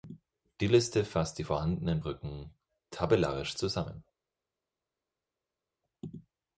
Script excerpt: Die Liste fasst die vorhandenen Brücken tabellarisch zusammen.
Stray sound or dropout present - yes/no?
no